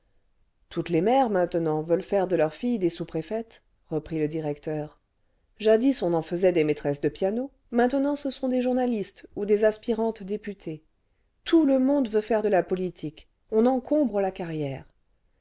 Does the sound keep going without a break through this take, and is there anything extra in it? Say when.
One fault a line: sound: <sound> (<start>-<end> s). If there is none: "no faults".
no faults